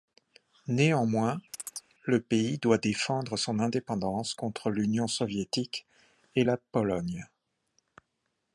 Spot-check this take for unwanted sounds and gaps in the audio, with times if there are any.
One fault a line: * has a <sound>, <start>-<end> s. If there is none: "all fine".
* has a chirp, 1.5-1.9 s